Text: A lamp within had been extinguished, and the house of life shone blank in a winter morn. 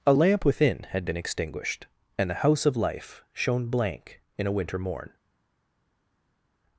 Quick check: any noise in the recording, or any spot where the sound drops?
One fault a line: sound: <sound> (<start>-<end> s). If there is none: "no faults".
no faults